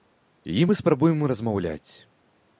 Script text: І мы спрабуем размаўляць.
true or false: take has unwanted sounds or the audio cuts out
false